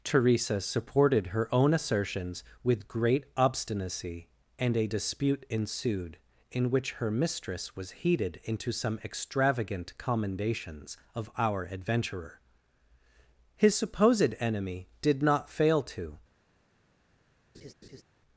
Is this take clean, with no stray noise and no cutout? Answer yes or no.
no